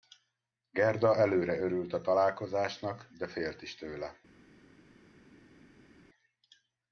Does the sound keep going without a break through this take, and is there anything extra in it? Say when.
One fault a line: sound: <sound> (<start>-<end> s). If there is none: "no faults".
no faults